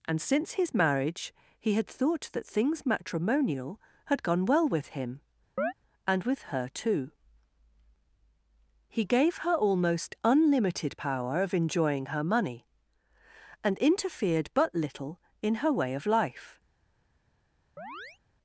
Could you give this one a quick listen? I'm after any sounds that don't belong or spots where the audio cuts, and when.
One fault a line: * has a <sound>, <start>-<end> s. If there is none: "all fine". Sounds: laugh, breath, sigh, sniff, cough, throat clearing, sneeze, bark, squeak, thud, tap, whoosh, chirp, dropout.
* has a chirp, 5.6-5.7 s
* has a chirp, 17.8-18.2 s